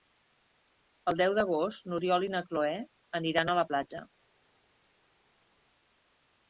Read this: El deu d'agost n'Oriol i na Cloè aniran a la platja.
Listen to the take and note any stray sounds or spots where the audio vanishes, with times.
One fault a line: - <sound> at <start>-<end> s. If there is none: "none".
none